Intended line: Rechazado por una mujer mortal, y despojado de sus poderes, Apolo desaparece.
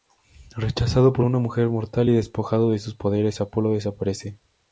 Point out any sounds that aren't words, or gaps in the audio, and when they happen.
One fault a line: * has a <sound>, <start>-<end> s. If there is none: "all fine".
all fine